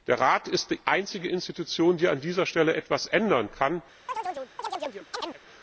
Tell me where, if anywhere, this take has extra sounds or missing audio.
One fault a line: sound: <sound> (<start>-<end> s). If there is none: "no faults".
sound: chirp (4.1-5.4 s)